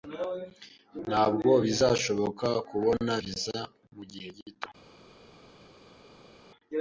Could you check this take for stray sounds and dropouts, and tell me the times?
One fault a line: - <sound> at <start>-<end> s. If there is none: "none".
none